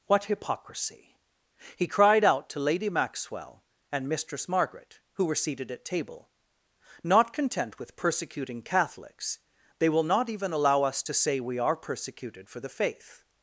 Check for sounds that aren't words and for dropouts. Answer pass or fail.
pass